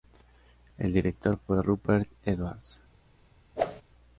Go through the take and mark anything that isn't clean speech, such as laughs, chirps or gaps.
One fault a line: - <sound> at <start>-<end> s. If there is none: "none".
- whoosh at 3.6-3.8 s